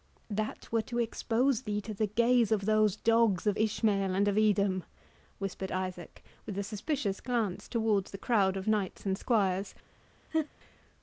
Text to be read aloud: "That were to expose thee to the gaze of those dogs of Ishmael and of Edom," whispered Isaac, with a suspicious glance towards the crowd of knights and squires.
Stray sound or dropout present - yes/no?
yes